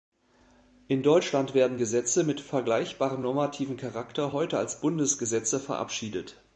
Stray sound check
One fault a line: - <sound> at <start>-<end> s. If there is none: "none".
none